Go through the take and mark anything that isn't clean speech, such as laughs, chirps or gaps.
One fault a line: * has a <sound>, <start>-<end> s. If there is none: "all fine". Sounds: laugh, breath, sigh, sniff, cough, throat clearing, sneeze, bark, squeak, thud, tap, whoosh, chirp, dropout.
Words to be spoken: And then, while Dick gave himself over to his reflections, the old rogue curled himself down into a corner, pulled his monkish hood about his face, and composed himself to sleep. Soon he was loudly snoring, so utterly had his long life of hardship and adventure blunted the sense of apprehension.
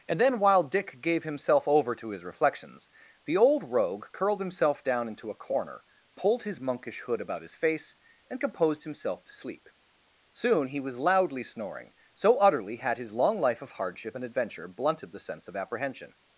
all fine